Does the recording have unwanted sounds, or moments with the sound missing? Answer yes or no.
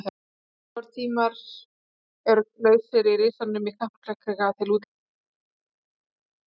no